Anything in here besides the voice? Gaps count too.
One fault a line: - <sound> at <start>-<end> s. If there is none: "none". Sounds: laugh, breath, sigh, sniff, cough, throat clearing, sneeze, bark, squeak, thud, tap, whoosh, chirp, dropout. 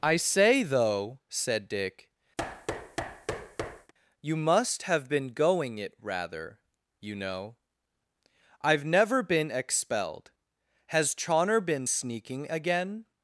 - thud at 2.4-3.9 s